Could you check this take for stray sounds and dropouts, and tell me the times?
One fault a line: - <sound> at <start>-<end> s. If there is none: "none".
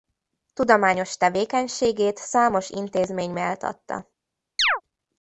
- chirp at 4.6-4.8 s